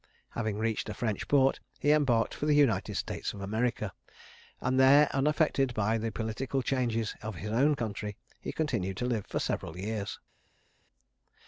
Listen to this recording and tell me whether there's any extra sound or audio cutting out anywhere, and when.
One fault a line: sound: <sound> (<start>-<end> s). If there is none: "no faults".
no faults